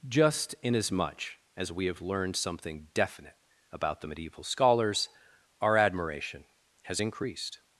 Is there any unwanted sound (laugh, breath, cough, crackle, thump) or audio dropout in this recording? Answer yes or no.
no